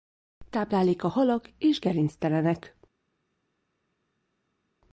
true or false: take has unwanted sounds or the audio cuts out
false